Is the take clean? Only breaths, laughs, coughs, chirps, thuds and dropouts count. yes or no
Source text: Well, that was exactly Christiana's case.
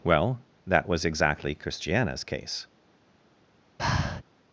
no